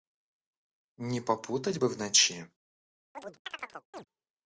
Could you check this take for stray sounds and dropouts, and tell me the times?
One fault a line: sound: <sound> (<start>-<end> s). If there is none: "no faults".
sound: chirp (3.1-4.0 s)